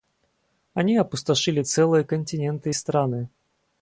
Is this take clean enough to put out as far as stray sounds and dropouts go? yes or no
yes